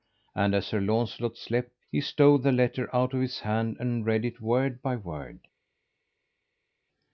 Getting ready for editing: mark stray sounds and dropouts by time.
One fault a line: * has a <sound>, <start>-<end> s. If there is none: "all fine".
all fine